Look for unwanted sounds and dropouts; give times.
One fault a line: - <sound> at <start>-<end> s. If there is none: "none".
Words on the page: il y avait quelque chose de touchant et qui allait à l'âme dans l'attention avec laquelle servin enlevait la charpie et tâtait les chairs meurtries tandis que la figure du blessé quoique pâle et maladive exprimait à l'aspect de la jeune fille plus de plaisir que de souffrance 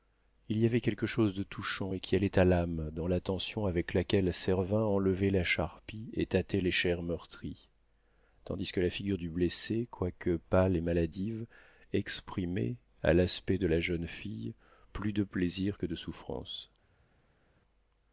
none